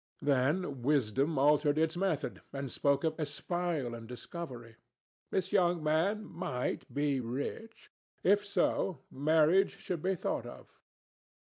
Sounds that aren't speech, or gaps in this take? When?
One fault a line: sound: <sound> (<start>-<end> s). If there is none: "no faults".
no faults